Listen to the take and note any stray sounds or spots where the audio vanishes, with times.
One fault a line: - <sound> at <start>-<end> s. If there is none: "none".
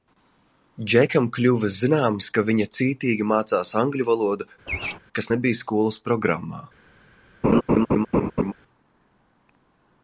- laugh at 4.7-5.0 s
- laugh at 7.4-8.5 s